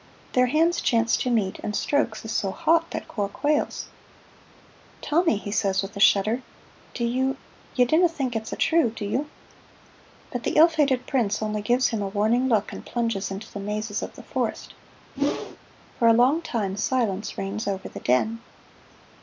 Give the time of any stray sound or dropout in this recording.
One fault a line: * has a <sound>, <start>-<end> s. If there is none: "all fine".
* has a whoosh, 15.2-15.6 s